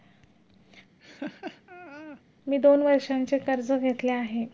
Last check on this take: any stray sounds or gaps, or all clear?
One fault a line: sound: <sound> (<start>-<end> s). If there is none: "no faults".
sound: laugh (1.0-2.2 s)